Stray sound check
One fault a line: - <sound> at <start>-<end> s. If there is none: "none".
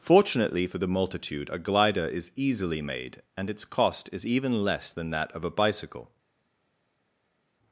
none